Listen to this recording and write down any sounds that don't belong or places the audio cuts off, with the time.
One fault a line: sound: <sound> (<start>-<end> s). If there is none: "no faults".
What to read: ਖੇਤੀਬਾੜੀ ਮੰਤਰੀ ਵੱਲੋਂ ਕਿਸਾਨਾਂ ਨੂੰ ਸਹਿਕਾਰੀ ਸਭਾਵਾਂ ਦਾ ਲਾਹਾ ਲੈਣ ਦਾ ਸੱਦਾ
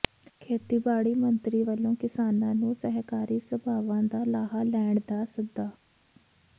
no faults